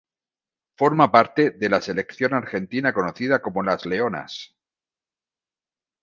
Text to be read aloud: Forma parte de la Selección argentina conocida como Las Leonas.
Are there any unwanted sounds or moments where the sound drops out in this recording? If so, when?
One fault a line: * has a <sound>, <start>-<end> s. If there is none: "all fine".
all fine